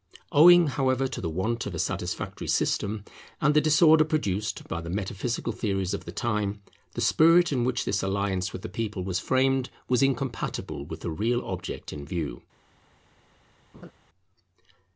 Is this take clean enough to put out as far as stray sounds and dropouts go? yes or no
no